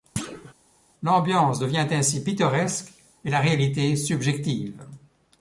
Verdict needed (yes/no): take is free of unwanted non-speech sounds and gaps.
no